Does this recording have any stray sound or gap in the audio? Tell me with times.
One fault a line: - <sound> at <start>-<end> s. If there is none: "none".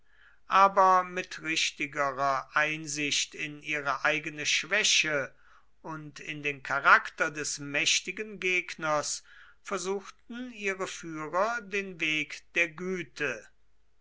none